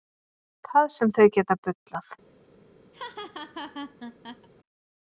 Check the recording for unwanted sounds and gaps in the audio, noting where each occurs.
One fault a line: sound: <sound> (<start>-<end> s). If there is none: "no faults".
sound: laugh (2.9-4.5 s)